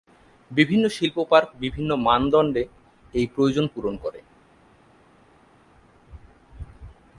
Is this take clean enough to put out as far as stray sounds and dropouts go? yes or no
yes